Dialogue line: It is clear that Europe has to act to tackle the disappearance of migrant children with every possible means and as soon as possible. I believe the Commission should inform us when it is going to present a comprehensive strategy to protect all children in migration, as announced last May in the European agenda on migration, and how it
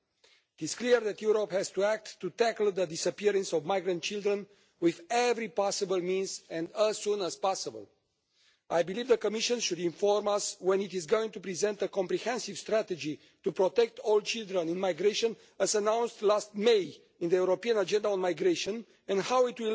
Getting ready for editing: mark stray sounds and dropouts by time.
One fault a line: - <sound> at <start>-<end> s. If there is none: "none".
none